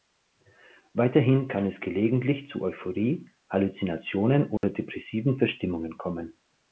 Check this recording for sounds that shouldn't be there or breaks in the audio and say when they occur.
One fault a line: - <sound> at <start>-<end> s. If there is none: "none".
- dropout at 4.6-4.6 s